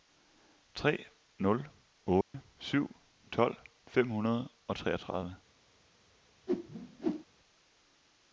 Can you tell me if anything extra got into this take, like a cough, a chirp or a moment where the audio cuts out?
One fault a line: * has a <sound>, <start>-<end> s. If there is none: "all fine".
* has a dropout, 2.2-2.3 s
* has a whoosh, 6.5-7.2 s